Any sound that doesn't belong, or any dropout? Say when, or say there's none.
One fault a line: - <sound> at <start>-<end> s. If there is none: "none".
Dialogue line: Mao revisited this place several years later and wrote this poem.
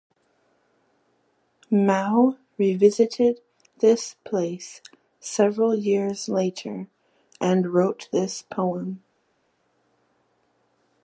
none